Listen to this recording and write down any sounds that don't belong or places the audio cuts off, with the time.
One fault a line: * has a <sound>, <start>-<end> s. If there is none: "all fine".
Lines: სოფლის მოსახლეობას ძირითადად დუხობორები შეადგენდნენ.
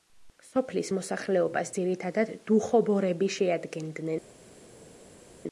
all fine